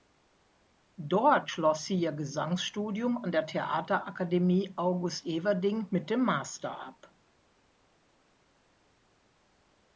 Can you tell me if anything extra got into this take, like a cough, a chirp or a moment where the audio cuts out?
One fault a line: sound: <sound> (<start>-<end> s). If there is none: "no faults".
no faults